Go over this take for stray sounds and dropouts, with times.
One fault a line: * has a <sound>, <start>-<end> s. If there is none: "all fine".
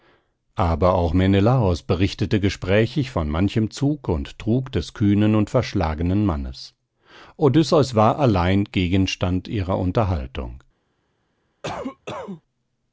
* has a cough, 11.6-12.4 s